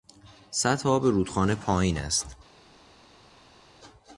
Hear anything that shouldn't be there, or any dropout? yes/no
no